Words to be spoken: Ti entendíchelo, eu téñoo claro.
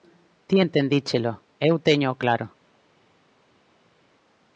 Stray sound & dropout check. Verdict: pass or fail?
pass